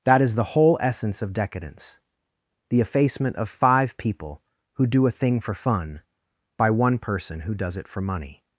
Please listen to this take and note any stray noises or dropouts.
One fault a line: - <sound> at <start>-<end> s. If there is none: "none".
none